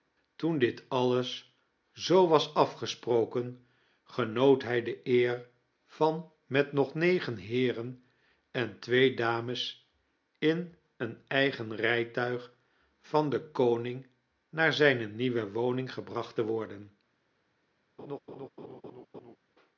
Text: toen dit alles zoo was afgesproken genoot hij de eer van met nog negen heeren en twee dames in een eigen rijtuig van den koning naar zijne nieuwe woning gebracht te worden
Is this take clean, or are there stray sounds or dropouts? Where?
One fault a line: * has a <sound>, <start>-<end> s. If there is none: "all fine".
* has a laugh, 18.0-19.4 s